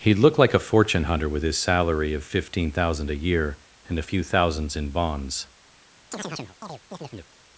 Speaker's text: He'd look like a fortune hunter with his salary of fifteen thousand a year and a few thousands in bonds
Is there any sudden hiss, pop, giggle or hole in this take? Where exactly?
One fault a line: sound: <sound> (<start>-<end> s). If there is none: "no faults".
sound: chirp (6.1-7.3 s)